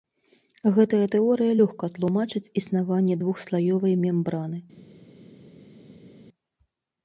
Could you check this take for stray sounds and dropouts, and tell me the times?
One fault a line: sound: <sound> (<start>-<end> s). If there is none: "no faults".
no faults